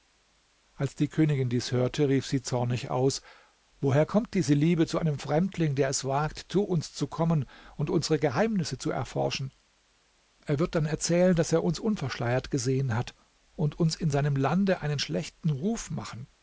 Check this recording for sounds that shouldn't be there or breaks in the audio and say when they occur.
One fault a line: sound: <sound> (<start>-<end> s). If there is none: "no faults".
no faults